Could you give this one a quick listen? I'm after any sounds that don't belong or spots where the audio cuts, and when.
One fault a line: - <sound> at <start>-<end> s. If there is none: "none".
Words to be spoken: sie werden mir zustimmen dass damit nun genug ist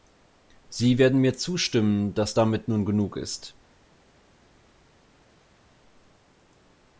none